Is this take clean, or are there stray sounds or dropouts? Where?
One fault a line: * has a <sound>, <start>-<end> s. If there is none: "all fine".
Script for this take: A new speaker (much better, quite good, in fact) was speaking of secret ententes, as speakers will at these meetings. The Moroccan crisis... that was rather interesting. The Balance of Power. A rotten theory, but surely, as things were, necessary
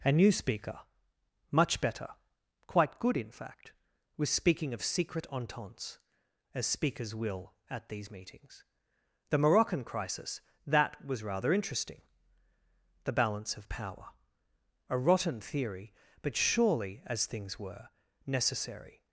all fine